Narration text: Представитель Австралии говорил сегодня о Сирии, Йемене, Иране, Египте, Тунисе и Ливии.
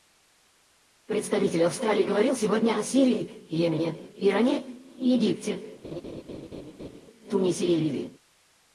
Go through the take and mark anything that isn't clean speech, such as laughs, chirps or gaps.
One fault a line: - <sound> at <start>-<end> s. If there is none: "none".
- laugh at 5.8-7.0 s